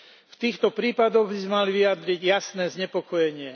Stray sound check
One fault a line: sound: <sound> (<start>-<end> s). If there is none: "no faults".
no faults